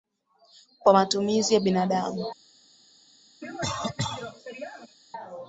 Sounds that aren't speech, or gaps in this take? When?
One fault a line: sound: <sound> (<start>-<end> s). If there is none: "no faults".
sound: cough (3.4-5.0 s)